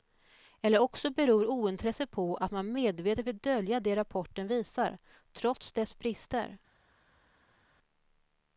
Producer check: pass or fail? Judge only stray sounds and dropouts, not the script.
pass